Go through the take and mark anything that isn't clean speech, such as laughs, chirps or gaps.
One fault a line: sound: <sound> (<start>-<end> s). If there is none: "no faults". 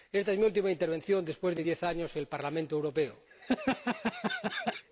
sound: laugh (3.3-4.9 s)